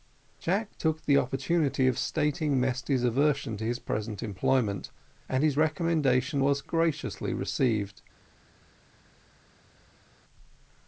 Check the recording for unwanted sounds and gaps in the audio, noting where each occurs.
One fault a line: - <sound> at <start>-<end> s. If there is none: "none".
none